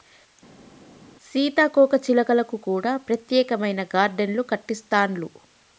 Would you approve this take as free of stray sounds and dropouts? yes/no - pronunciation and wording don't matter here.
yes